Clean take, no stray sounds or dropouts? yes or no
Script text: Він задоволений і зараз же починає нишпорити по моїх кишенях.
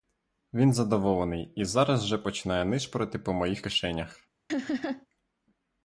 no